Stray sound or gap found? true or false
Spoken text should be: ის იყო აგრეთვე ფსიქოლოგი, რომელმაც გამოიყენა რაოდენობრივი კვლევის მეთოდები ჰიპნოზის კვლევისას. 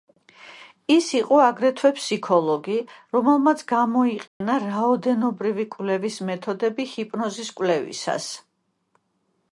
true